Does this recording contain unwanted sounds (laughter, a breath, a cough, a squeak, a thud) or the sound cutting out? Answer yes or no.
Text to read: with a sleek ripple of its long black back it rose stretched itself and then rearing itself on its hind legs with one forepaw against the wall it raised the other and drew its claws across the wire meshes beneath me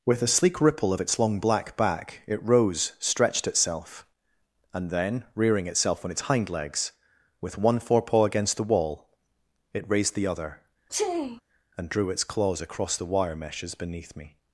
yes